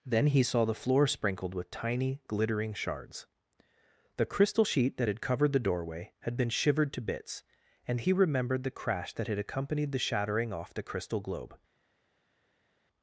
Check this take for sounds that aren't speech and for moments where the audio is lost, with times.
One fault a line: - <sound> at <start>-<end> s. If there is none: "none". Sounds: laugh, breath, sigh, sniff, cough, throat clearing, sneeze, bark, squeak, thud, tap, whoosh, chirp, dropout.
none